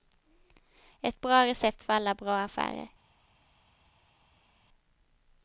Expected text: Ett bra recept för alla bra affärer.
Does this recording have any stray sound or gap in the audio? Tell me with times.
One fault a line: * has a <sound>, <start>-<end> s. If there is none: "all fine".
all fine